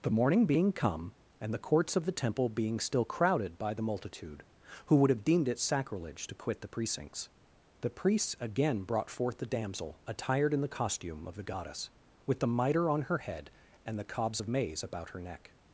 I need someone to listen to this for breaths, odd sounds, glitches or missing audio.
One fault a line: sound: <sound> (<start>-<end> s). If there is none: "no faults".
no faults